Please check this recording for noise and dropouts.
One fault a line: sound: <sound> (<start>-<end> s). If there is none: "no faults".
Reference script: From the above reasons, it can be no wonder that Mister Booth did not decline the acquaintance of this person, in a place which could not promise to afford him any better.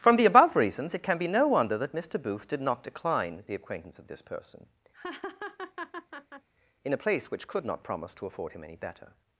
sound: laugh (4.9-6.5 s)